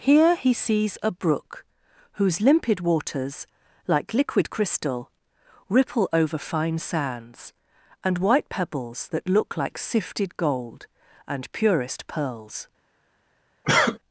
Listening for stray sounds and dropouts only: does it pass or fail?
fail